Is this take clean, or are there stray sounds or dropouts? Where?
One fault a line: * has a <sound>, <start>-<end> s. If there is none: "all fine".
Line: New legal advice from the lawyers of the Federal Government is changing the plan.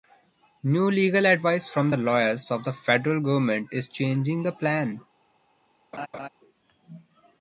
* has a laugh, 5.9-6.3 s